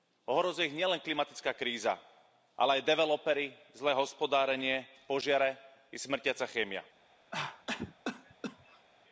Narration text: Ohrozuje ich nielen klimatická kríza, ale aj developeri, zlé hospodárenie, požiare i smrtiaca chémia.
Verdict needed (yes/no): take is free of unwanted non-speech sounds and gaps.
no